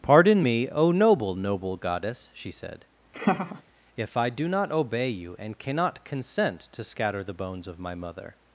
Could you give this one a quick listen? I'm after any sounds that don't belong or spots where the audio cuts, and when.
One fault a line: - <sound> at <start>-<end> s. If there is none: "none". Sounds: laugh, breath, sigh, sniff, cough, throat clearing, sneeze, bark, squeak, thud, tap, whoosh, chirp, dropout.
- laugh at 3.1-3.6 s